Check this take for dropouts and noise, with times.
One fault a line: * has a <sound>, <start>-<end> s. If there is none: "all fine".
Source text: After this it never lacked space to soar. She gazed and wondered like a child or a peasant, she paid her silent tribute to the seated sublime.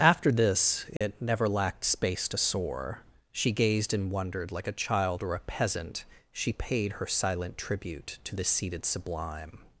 * has a dropout, 1.0-1.0 s